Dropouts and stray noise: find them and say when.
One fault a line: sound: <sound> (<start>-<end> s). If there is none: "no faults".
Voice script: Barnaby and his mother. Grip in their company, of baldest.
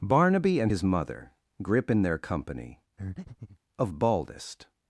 sound: breath (3.0-3.6 s)